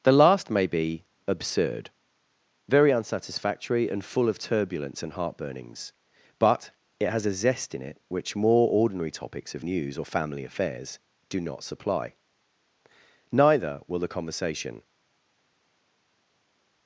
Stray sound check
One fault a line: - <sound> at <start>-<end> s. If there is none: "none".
none